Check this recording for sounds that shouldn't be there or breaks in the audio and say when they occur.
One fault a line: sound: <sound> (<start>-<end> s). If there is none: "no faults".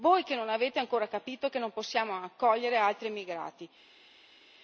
no faults